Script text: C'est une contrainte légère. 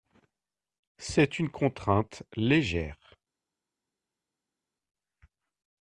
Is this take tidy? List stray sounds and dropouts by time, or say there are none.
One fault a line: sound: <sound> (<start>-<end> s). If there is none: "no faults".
no faults